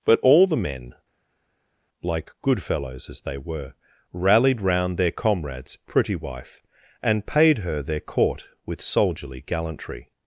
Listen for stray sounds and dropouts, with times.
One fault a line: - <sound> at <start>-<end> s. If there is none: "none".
none